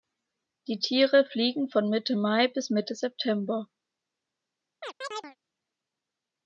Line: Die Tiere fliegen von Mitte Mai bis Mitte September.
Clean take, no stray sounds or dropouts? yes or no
no